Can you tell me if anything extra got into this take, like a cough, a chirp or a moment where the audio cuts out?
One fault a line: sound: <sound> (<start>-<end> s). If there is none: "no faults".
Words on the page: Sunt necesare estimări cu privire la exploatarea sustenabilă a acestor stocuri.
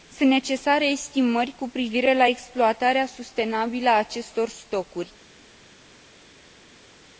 no faults